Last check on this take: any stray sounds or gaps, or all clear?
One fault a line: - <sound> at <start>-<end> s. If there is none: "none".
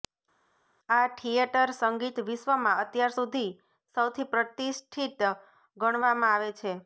none